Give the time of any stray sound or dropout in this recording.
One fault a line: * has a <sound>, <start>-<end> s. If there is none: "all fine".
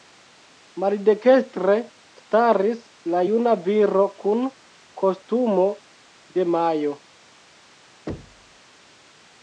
* has a thud, 8.1-8.6 s